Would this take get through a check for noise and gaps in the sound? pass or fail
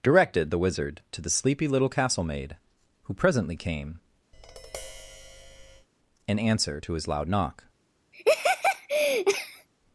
fail